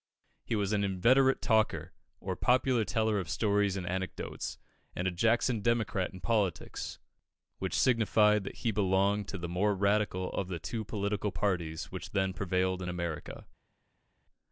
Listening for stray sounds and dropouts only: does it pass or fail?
pass